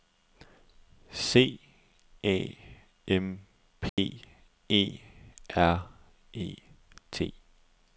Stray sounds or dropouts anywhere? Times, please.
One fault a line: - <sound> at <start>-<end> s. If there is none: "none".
- dropout at 3.9-4.0 s